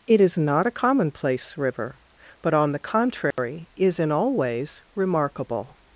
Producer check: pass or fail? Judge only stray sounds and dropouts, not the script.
fail